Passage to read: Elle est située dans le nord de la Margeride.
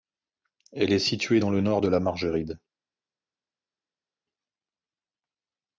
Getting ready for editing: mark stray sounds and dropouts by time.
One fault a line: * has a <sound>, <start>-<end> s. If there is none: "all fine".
all fine